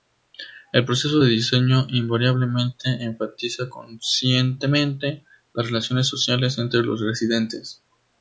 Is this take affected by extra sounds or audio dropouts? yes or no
no